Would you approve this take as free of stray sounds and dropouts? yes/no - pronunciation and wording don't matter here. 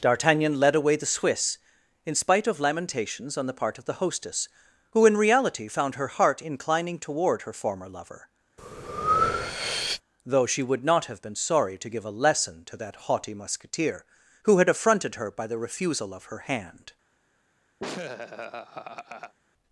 no